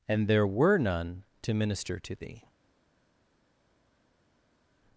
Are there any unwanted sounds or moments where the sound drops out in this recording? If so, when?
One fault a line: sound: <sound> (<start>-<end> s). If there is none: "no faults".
no faults